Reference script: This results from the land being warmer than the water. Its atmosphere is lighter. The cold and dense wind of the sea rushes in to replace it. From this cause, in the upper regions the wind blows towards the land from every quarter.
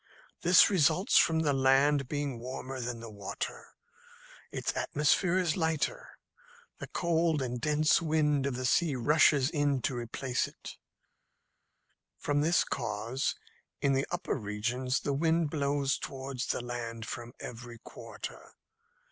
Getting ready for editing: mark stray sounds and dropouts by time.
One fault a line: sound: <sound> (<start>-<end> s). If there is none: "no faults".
no faults